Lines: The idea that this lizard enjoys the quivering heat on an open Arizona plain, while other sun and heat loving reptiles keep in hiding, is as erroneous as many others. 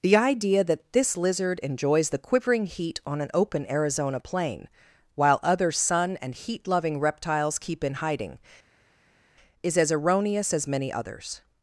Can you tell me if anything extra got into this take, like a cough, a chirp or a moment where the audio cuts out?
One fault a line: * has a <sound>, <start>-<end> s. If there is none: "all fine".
all fine